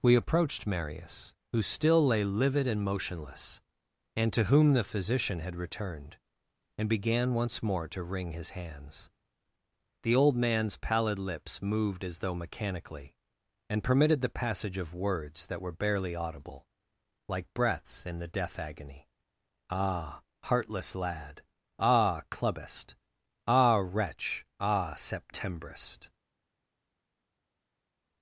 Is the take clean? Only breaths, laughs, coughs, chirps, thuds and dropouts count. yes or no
yes